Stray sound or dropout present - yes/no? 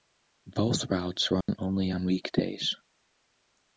yes